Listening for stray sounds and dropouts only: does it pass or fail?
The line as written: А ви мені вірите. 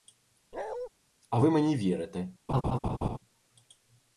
fail